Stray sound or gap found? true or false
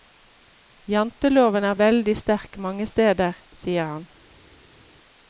false